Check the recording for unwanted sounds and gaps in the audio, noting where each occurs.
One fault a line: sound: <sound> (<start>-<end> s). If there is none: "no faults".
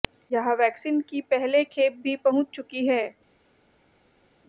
no faults